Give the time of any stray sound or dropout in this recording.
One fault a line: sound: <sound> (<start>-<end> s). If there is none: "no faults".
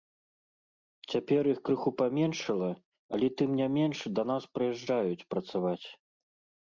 no faults